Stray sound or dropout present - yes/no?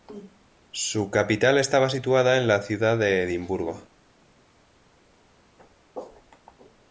no